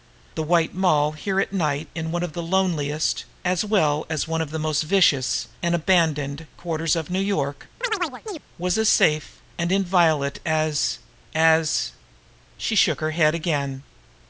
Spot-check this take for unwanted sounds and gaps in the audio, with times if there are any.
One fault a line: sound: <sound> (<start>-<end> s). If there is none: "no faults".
sound: chirp (7.8-8.4 s)